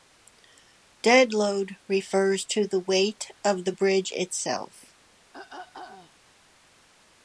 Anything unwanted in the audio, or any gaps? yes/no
yes